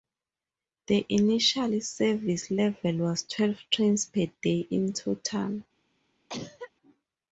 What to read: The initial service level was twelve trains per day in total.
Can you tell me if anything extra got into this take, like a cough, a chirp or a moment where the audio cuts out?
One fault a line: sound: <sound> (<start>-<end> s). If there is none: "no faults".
sound: cough (6.3-6.7 s)